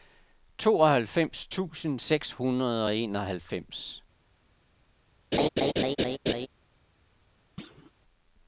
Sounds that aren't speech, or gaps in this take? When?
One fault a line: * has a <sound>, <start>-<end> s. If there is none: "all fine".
* has a laugh, 5.3-6.5 s
* has a thud, 7.6-7.9 s